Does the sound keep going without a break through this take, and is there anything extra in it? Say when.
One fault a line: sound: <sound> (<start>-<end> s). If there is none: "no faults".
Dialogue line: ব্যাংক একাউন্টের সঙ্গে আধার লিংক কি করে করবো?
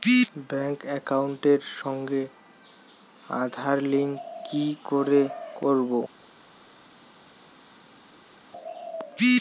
no faults